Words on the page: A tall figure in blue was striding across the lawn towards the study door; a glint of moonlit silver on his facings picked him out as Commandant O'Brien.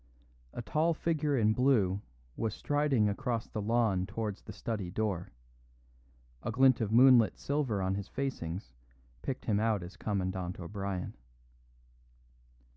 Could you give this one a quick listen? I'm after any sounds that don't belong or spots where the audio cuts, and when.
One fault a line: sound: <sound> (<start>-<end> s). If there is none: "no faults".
no faults